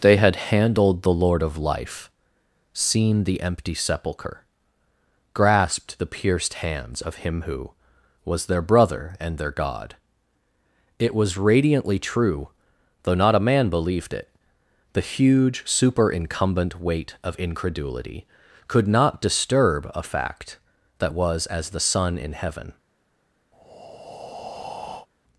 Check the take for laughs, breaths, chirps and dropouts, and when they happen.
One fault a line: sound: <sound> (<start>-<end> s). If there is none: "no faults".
sound: breath (23.5-25.1 s)